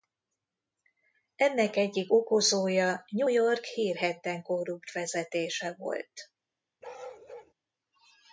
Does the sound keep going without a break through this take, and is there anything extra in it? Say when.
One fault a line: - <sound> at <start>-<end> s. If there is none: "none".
- bark at 6.8-7.5 s